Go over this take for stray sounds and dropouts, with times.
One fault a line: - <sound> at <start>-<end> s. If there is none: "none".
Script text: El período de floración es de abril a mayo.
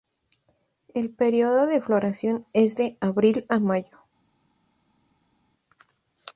none